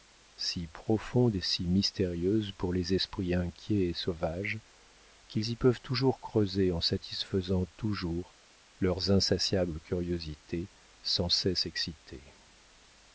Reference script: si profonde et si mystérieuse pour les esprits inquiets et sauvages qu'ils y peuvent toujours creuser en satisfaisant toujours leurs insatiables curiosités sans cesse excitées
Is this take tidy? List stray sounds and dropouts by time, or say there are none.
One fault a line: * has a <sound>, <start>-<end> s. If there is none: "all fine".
all fine